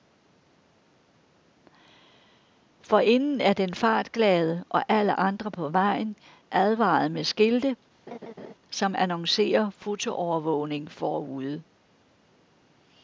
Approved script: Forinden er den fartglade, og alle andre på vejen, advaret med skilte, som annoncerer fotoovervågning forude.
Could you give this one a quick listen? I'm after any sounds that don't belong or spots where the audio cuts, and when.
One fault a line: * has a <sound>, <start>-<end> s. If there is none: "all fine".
* has a laugh, 8.1-8.5 s